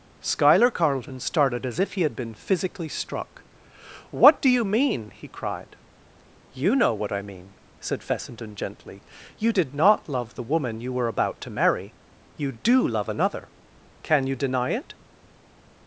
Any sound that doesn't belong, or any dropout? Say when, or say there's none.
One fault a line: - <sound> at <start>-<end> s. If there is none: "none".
none